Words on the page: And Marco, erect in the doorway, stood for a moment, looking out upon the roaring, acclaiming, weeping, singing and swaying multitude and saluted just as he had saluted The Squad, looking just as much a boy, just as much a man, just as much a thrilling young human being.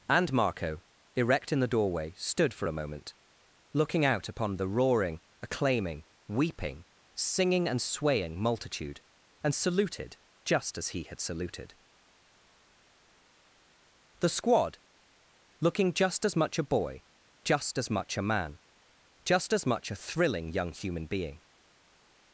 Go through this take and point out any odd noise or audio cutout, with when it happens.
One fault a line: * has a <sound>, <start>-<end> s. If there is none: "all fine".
all fine